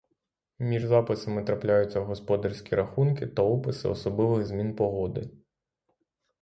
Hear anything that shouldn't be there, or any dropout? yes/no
no